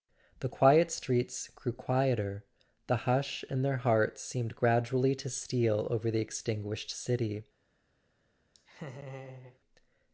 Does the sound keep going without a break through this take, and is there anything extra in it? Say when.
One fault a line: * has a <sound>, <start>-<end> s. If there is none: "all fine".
* has a laugh, 8.5-9.6 s